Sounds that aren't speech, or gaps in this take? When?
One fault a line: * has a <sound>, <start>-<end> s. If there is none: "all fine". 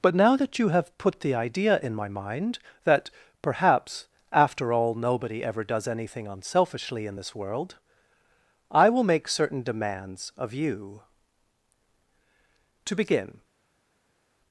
all fine